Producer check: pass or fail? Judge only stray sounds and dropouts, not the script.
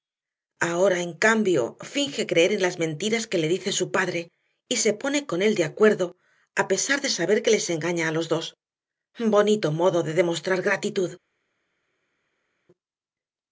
pass